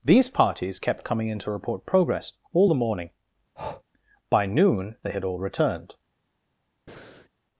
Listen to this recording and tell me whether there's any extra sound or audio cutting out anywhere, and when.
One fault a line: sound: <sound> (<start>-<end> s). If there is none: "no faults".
sound: breath (3.6-3.8 s)
sound: breath (6.9-7.3 s)